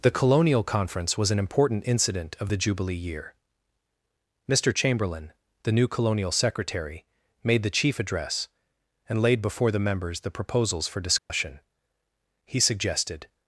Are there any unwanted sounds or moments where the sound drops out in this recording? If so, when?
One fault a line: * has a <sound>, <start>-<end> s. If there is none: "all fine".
* has a dropout, 11.2-11.3 s